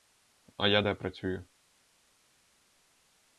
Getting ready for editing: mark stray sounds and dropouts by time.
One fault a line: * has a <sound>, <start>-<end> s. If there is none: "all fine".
all fine